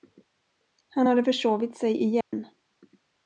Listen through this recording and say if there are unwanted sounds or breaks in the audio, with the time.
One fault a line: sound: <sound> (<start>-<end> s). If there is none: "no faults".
sound: dropout (2.2-2.3 s)